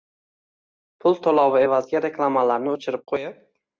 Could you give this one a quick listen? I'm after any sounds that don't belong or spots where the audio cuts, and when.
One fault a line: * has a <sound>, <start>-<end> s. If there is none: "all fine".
all fine